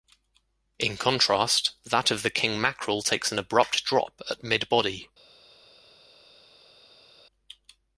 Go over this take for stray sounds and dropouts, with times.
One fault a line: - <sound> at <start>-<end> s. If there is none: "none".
none